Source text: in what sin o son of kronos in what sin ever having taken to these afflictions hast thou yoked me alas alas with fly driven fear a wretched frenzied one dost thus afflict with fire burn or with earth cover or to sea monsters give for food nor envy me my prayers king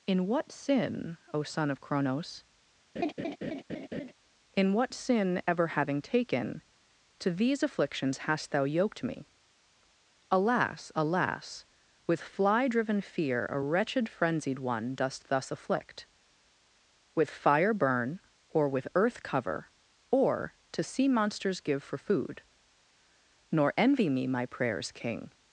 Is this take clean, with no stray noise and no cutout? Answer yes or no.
no